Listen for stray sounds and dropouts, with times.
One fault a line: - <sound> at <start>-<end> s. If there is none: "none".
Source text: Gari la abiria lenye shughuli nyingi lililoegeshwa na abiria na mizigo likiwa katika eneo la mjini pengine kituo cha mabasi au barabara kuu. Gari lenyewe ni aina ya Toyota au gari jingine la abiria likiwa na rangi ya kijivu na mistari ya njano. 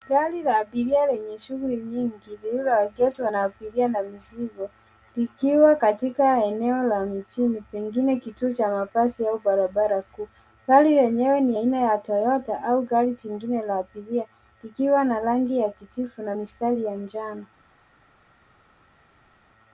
none